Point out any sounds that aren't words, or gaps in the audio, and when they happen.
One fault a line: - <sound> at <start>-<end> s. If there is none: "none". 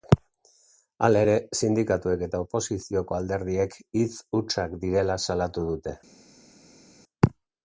none